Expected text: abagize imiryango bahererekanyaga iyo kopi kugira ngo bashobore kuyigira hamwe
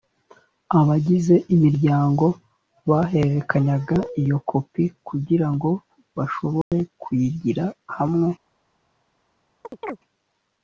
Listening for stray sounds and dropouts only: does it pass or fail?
fail